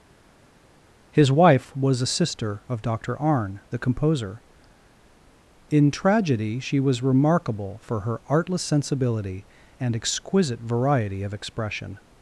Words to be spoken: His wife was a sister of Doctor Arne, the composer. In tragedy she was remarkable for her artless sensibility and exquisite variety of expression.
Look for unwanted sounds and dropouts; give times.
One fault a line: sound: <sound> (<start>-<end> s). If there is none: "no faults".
no faults